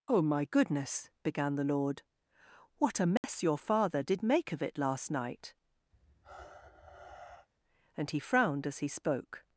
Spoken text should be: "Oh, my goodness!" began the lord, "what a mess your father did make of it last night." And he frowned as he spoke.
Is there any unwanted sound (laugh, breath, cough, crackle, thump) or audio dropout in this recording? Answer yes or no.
yes